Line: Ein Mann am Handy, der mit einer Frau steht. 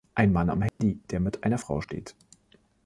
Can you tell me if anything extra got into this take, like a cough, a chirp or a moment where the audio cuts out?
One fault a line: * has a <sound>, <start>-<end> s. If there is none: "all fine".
* has a dropout, 0.7-0.8 s